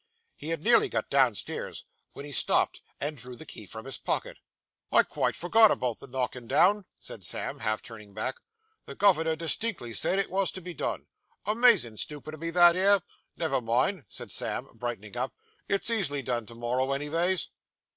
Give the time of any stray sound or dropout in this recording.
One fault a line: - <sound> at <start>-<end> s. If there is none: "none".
none